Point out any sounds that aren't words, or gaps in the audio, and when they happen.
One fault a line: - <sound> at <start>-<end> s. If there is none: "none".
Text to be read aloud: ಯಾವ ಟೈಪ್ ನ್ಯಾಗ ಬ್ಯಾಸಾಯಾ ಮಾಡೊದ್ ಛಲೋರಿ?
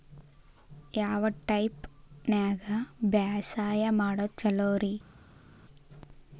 none